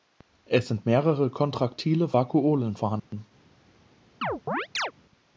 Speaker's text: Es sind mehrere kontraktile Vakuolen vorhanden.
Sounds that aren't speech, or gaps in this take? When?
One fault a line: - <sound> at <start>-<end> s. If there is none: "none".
- dropout at 3.0-3.1 s
- chirp at 4.2-4.9 s